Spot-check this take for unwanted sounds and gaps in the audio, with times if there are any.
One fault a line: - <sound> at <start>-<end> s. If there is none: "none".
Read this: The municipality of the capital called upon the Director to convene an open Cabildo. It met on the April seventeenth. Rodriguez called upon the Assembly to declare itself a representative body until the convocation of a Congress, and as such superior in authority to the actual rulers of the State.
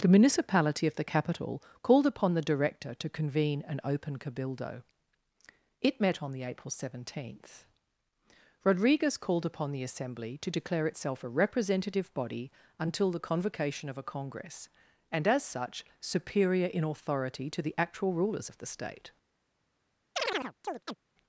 - chirp at 20.2-21.0 s